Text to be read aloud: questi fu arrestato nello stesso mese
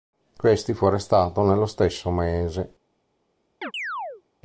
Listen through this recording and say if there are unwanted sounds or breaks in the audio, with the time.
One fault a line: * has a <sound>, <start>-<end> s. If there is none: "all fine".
* has a chirp, 3.6-4.2 s